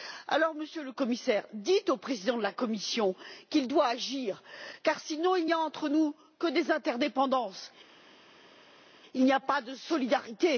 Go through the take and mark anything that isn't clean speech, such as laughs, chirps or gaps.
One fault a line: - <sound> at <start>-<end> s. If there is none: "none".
none